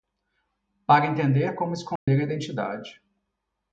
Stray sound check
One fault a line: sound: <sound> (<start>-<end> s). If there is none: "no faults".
sound: dropout (2.0-2.1 s)